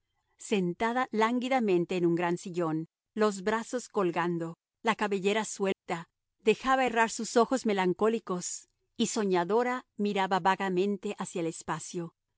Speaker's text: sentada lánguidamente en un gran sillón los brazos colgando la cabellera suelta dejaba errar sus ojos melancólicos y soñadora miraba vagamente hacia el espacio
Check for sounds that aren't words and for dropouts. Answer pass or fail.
fail